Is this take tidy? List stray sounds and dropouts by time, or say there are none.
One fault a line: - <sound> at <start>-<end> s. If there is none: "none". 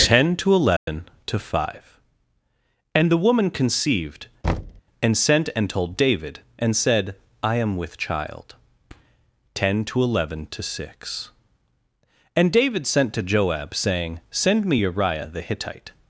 - dropout at 0.8-0.9 s
- thud at 4.4-4.8 s